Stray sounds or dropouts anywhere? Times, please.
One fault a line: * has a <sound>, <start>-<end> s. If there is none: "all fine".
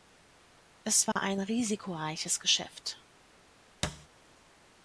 * has a dropout, 1.1-1.2 s
* has a thud, 3.8-4.1 s